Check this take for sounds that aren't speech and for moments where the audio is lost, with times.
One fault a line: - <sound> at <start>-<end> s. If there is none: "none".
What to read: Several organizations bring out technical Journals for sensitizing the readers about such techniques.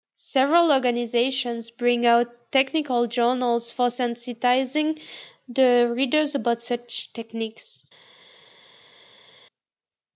none